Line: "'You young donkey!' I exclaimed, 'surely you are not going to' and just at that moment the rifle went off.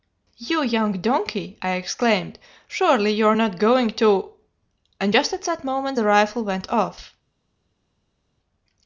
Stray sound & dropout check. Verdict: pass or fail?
pass